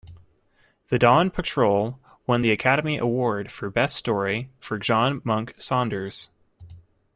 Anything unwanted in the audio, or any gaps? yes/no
no